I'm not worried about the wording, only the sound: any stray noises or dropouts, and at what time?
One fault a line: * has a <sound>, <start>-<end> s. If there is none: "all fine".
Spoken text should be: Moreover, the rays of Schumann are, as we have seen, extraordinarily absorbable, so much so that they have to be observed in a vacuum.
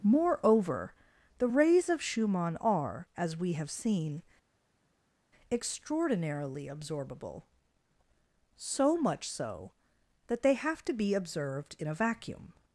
all fine